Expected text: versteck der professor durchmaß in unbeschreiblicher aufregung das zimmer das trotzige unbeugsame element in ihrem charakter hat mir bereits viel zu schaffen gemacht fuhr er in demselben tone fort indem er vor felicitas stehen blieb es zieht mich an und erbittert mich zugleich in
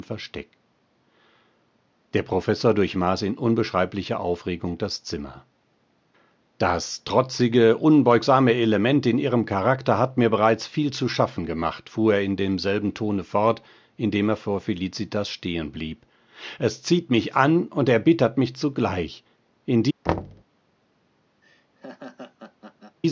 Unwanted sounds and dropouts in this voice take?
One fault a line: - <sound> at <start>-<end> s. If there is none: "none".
- thud at 20.1-20.4 s
- laugh at 21.4-23.0 s